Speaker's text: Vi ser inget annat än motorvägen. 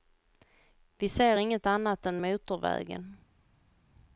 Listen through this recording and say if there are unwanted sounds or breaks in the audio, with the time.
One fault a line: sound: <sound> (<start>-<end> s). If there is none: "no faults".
no faults